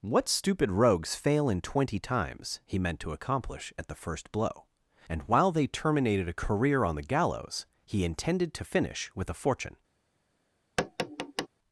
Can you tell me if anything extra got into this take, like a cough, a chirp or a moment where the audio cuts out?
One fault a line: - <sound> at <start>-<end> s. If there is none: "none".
- tap at 10.8-11.5 s